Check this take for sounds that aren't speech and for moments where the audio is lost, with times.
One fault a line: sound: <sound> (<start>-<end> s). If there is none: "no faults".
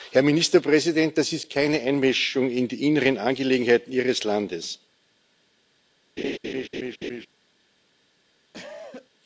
sound: laugh (6.2-7.3 s)
sound: cough (8.5-9.1 s)